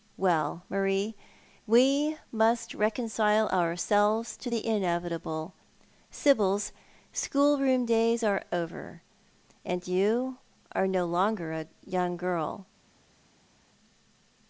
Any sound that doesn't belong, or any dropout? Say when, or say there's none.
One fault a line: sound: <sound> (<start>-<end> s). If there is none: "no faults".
no faults